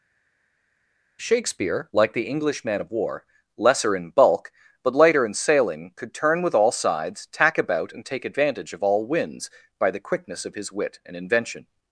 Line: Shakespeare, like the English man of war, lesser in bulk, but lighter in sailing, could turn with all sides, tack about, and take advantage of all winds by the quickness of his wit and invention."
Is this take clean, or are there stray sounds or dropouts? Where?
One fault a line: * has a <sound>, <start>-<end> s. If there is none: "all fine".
all fine